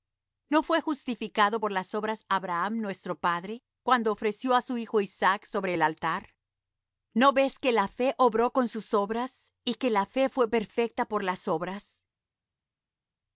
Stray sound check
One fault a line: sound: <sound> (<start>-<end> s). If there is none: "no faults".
no faults